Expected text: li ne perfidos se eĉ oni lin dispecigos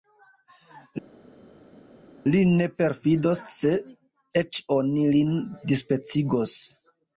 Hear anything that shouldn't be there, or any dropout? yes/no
no